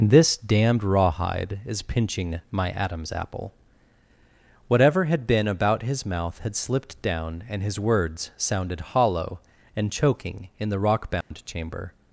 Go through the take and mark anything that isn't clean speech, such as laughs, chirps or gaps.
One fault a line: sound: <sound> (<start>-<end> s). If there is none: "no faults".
sound: dropout (11.2-11.3 s)